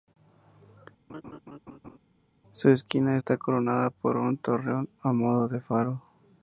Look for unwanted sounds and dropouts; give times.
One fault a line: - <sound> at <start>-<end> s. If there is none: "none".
- laugh at 1.1-2.0 s